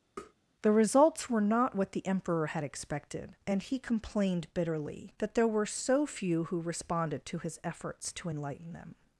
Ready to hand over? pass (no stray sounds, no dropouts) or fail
fail